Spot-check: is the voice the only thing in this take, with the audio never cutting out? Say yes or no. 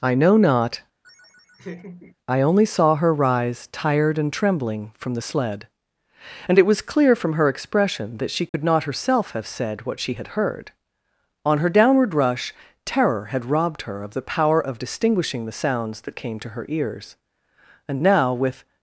no